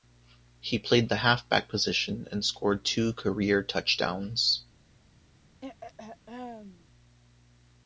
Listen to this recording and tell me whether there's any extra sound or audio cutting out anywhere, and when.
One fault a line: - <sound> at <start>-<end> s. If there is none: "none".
- throat clearing at 5.6-6.9 s